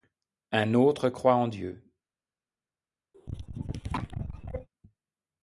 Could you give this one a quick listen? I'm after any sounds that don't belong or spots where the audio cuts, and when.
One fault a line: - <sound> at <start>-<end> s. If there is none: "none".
- cough at 3.1-4.7 s